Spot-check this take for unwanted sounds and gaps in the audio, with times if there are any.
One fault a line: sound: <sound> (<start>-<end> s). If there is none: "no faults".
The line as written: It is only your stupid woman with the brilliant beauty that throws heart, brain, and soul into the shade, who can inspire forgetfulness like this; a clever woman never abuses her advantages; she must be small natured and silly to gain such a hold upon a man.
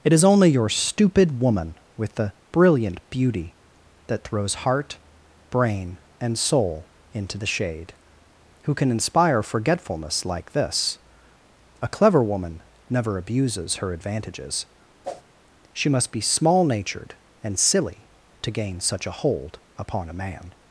sound: whoosh (15.0-15.2 s)